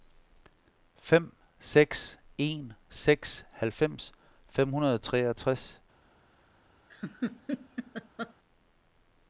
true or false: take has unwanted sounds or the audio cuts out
true